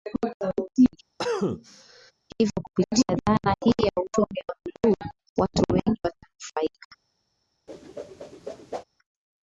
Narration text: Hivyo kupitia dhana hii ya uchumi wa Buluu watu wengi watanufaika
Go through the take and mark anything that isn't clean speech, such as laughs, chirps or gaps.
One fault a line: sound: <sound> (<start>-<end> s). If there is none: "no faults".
sound: cough (1.2-2.1 s)
sound: whoosh (7.7-8.8 s)